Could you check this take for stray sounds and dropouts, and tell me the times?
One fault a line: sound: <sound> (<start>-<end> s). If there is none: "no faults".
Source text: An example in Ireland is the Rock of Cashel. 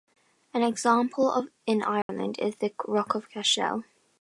sound: dropout (2.0-2.1 s)